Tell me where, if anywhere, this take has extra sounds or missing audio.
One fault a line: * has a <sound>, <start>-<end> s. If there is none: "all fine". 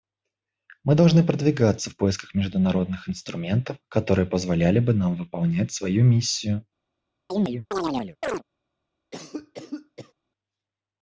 * has a chirp, 7.3-8.4 s
* has a cough, 9.1-10.1 s